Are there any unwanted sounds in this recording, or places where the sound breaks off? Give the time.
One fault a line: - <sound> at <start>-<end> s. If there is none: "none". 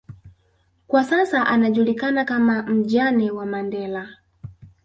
none